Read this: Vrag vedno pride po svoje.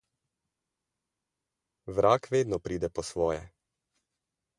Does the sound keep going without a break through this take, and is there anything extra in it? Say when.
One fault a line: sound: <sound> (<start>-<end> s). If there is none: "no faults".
no faults